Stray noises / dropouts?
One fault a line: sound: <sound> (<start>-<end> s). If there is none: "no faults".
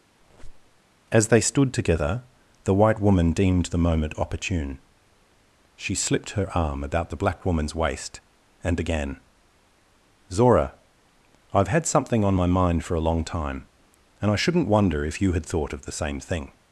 sound: squeak (0.2-0.8 s)